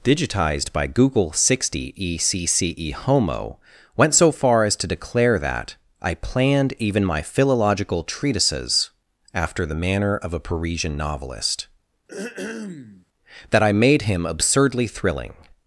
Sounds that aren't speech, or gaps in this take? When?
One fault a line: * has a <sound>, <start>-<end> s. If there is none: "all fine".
* has a throat clearing, 12.1-13.1 s